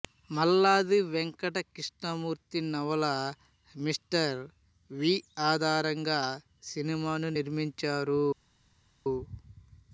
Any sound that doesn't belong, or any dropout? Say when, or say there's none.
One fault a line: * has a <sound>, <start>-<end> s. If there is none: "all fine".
all fine